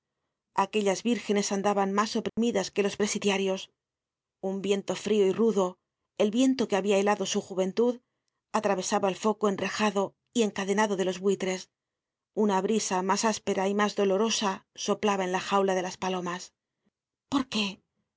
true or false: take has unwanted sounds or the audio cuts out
true